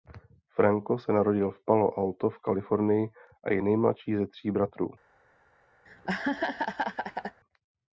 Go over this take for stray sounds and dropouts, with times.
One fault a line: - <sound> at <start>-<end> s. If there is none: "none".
- laugh at 5.9-7.4 s